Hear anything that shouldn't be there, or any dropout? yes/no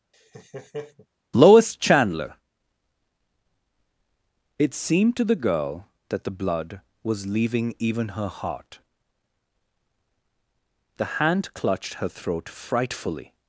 yes